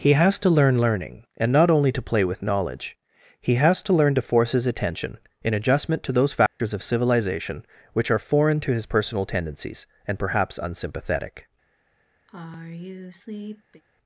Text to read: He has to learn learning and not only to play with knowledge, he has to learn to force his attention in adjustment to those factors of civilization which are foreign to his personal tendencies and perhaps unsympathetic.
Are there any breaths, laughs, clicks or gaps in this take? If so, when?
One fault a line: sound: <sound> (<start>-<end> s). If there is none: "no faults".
sound: dropout (6.5-6.6 s)
sound: sigh (12.3-13.8 s)